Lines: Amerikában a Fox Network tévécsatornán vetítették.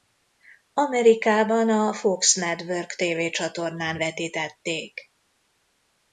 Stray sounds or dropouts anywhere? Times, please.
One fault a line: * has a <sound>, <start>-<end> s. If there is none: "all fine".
all fine